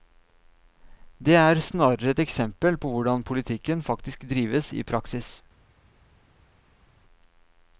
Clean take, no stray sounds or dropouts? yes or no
yes